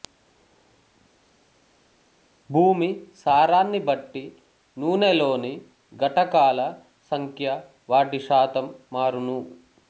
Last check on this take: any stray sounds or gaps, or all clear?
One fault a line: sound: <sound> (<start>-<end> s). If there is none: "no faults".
no faults